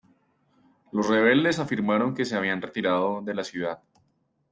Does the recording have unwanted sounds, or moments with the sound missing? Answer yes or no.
no